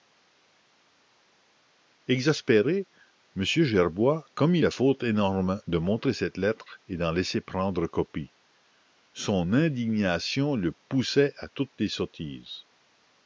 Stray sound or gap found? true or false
false